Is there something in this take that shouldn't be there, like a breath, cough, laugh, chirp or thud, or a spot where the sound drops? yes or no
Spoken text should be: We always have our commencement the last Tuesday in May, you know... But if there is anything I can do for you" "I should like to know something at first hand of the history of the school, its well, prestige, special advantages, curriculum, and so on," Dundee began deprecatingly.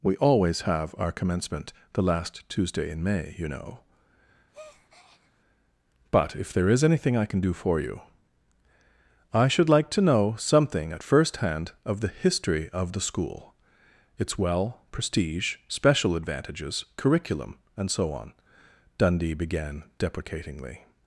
yes